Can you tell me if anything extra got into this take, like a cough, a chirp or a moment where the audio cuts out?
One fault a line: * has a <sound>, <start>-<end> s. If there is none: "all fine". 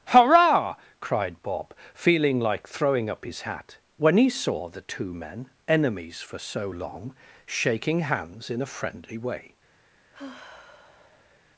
* has a sigh, 10.1-11.4 s